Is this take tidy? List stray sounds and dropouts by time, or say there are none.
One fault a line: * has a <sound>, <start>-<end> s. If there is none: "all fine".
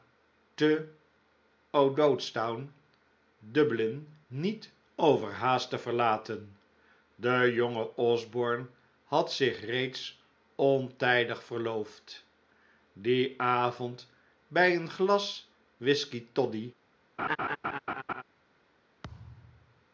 * has a laugh, 17.2-18.2 s
* has a thud, 19.0-19.9 s